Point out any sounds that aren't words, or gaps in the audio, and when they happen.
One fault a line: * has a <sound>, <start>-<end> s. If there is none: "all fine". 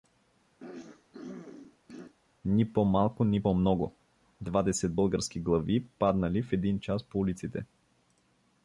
* has a throat clearing, 0.6-2.1 s